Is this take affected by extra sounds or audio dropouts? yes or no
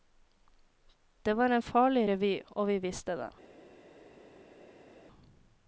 no